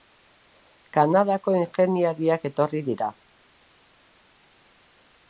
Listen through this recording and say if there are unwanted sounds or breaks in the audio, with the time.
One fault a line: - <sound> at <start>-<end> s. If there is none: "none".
none